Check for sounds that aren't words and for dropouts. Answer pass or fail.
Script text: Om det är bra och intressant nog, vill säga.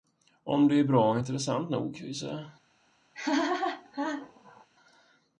fail